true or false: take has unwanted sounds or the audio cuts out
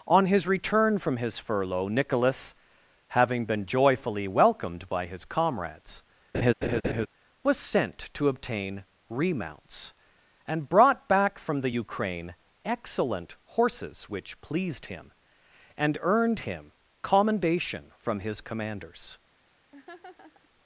true